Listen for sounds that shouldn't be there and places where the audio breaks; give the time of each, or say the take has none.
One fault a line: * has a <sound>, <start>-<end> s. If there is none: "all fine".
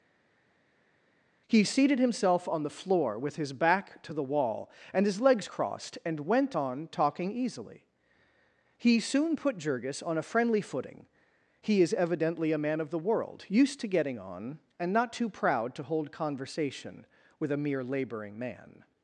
all fine